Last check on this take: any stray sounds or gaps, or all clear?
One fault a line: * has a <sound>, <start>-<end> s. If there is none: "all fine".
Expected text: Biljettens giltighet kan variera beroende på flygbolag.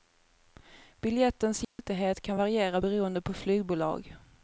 * has a dropout, 1.6-1.8 s